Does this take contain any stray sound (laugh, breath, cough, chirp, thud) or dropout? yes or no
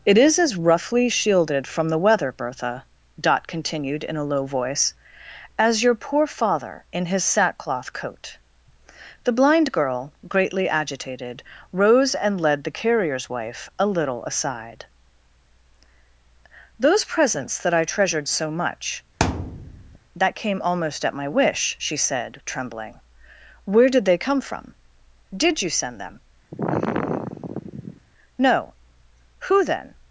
yes